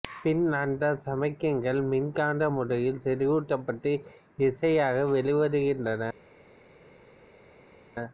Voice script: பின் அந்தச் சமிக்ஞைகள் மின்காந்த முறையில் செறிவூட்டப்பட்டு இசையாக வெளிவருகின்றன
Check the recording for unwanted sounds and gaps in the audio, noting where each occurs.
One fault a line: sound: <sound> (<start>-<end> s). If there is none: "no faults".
no faults